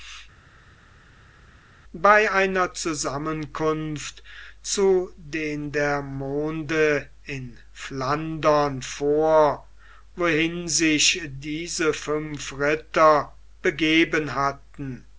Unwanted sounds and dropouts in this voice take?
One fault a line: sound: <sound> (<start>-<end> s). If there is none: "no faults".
no faults